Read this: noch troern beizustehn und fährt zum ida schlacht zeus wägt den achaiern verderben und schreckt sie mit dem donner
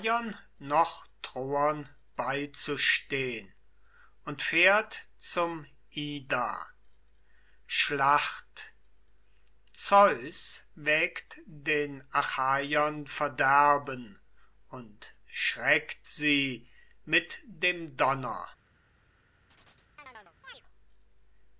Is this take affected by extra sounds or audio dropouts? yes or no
yes